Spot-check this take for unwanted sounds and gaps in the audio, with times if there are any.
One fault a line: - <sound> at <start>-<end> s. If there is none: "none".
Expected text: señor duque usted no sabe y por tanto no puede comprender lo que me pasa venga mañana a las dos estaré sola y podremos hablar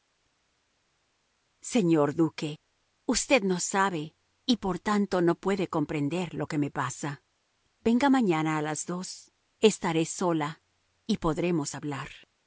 none